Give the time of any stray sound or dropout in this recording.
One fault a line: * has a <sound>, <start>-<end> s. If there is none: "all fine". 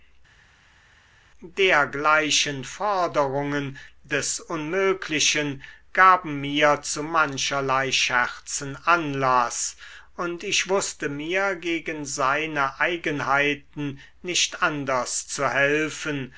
all fine